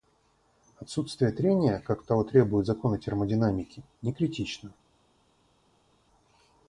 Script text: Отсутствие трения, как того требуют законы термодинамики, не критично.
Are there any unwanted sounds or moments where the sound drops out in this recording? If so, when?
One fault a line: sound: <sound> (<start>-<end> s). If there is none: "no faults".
no faults